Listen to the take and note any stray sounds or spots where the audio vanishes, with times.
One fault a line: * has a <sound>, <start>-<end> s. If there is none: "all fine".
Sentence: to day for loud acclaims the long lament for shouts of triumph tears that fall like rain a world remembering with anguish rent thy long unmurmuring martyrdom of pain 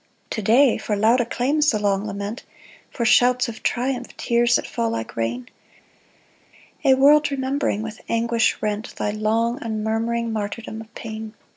all fine